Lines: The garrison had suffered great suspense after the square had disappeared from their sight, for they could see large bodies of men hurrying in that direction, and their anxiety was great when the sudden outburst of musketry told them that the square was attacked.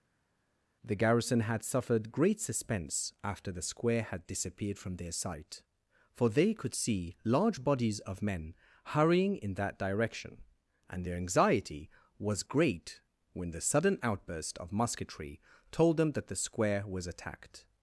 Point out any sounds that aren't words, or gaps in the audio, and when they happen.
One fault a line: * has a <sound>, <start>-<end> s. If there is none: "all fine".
all fine